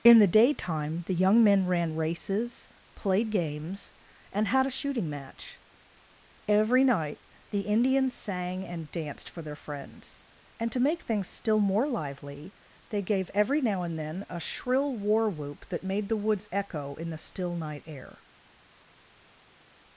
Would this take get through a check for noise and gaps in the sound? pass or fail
pass